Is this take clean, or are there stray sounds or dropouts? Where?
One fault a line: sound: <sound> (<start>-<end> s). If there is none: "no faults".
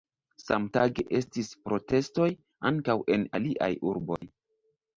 sound: dropout (4.2-4.2 s)